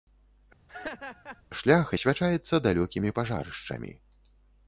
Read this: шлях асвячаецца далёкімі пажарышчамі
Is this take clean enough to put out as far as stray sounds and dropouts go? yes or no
no